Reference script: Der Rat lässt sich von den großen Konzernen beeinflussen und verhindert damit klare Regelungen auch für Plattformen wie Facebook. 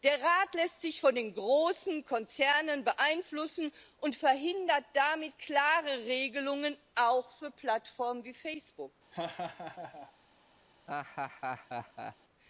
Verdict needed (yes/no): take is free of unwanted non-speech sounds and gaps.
no